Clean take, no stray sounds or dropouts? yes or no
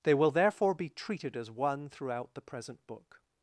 yes